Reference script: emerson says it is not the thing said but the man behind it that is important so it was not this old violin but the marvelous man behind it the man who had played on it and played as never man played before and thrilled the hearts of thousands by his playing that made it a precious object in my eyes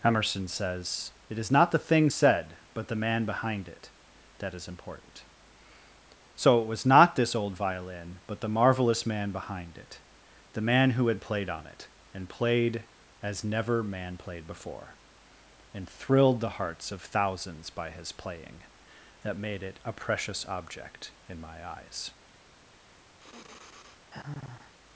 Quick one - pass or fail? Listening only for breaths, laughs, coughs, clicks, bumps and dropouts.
fail